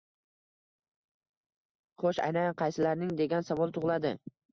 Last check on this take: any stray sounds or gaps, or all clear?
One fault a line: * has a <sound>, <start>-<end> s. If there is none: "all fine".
all fine